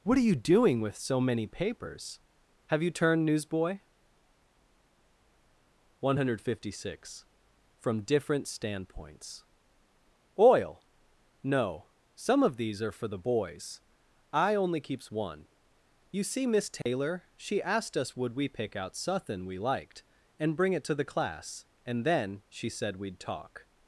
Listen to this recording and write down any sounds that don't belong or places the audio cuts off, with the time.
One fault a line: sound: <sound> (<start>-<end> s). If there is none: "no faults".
sound: dropout (16.8-16.9 s)